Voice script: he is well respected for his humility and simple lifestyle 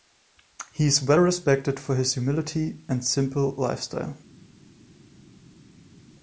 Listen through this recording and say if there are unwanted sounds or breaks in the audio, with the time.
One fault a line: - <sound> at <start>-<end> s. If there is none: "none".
none